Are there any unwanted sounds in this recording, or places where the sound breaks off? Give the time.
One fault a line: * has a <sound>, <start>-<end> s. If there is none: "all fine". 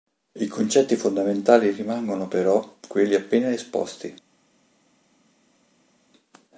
all fine